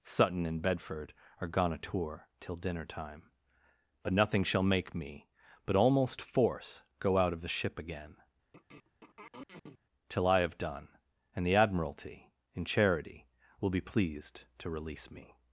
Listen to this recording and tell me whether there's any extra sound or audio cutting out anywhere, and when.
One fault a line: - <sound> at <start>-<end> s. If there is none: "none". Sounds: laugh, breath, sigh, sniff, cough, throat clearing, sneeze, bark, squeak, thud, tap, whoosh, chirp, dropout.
- throat clearing at 8.5-9.8 s